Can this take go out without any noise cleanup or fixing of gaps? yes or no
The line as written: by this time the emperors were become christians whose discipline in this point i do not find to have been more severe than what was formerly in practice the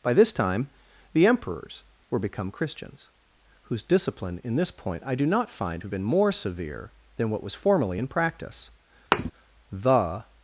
no